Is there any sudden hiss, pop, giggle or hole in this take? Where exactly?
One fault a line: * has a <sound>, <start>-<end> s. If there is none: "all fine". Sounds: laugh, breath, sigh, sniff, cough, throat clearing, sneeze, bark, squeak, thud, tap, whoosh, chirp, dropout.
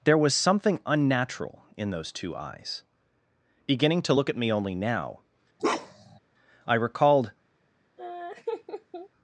* has a bark, 5.6-6.2 s
* has a laugh, 8.0-9.1 s